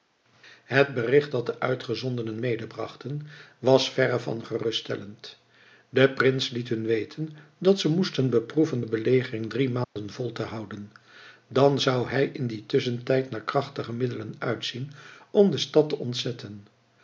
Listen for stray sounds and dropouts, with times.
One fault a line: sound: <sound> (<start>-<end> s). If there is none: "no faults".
sound: dropout (9.8-10.0 s)